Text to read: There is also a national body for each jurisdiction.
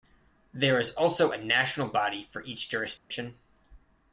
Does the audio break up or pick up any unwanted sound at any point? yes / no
yes